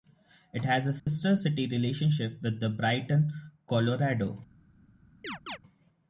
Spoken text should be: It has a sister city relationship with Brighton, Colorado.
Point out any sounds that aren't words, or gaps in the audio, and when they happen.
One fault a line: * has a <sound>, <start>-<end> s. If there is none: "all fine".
* has a dropout, 1.0-1.1 s
* has a chirp, 5.2-5.6 s